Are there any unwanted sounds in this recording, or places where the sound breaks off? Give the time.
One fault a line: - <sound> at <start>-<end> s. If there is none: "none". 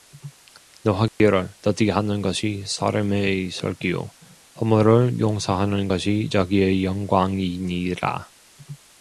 - dropout at 1.1-1.2 s